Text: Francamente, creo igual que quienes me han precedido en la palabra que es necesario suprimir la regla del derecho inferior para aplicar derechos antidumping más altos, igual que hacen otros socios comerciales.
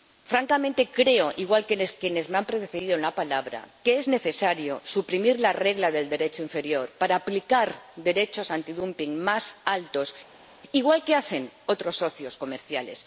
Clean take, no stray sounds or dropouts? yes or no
yes